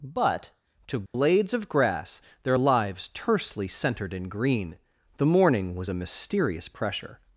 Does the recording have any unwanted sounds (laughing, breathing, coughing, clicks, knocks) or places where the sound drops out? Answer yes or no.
yes